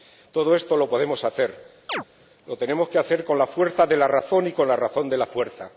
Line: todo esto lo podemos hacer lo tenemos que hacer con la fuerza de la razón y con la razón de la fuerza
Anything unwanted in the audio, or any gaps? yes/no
yes